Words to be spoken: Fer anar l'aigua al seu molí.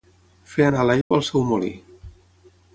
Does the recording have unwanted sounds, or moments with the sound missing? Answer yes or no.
yes